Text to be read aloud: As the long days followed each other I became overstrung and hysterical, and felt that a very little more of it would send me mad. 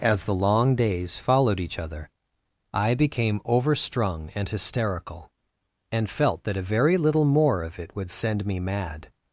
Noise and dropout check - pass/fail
pass